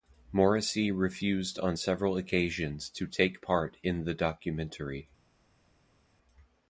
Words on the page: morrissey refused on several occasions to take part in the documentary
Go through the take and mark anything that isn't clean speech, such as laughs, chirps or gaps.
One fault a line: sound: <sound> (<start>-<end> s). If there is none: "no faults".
no faults